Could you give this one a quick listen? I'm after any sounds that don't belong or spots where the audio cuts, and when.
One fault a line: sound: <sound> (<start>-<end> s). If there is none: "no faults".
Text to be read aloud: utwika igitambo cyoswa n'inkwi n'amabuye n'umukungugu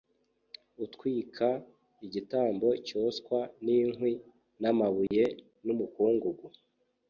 sound: dropout (5.1-5.1 s)